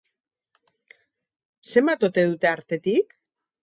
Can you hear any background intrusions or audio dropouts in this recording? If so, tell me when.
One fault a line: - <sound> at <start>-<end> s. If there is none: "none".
none